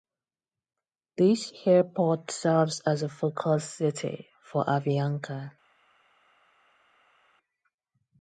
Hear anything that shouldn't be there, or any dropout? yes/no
no